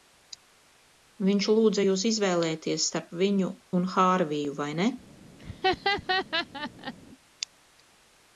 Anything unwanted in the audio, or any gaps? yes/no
yes